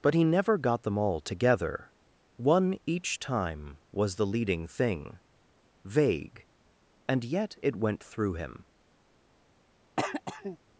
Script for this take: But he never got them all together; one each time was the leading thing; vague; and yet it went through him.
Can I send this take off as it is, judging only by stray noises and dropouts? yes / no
no